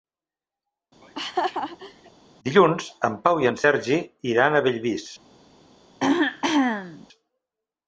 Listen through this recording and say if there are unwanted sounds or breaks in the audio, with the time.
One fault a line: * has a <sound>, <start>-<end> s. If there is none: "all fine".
* has a laugh, 1.0-2.1 s
* has a throat clearing, 6.0-7.1 s